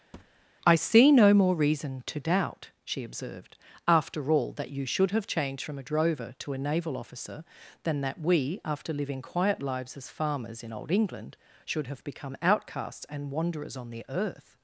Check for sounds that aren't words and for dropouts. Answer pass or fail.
fail